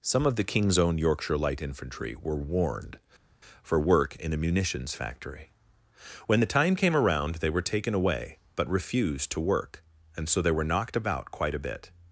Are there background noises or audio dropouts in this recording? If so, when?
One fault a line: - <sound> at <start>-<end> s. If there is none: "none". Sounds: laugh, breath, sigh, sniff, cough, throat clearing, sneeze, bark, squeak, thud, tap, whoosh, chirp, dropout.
none